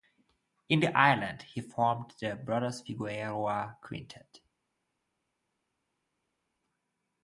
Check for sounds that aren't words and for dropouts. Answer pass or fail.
pass